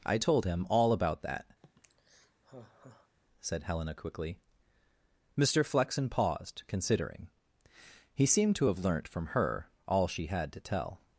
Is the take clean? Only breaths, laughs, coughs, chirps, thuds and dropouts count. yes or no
no